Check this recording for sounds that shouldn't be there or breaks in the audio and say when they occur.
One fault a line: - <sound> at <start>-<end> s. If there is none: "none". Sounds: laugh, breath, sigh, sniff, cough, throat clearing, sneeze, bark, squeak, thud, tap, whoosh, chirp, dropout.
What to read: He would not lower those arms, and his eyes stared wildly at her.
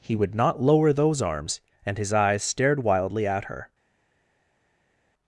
none